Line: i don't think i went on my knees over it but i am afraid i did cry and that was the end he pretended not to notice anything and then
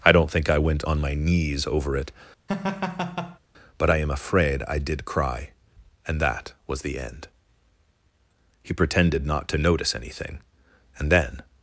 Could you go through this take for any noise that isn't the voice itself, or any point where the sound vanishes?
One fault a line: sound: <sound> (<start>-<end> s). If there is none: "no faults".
sound: laugh (2.5-3.4 s)